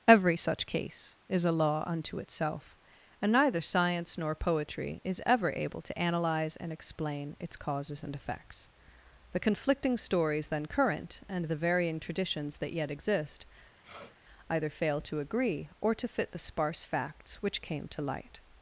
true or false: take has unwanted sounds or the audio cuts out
true